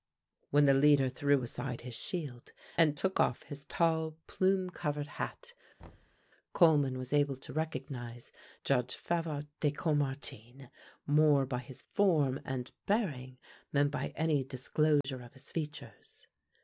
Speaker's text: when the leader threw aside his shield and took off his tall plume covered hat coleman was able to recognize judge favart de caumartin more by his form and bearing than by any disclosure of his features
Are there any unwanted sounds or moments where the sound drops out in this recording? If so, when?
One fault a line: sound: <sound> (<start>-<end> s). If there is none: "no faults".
sound: thud (5.8-6.2 s)
sound: dropout (15.0-15.0 s)